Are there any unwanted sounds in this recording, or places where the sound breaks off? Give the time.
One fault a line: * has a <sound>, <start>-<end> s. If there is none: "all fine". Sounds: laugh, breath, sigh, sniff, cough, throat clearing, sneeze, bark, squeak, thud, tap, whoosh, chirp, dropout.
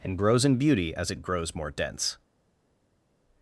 all fine